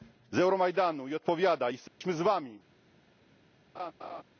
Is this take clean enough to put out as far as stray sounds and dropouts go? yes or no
no